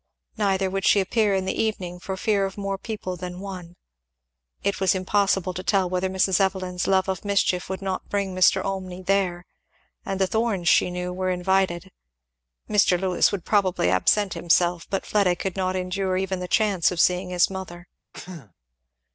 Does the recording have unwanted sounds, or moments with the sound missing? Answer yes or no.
yes